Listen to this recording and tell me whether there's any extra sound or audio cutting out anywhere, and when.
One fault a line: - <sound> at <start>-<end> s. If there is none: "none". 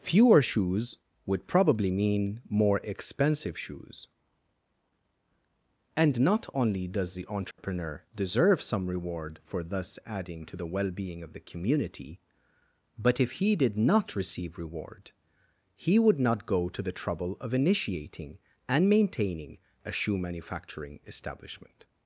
- dropout at 7.5-7.6 s